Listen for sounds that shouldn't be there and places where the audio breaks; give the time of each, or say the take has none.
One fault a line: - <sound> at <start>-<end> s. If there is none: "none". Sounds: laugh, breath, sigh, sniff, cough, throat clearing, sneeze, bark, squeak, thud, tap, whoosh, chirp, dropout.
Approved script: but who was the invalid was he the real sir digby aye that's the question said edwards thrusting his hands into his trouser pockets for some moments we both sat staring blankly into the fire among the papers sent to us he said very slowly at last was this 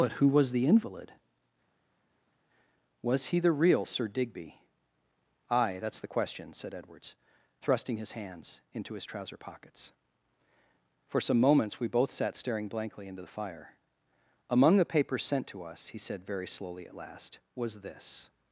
none